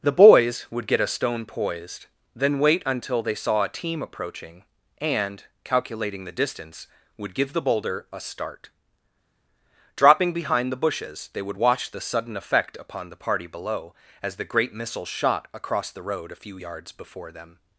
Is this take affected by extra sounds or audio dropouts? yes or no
no